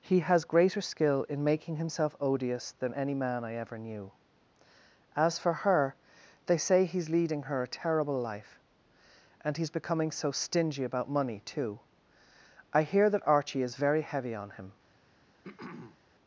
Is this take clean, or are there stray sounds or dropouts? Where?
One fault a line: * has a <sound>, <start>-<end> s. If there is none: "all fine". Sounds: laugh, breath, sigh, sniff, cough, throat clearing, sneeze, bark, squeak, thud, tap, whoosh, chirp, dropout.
* has a throat clearing, 15.4-16.0 s